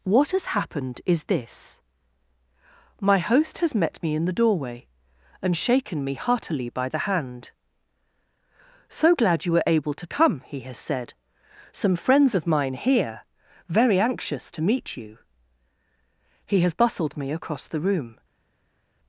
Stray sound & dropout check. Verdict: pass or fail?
pass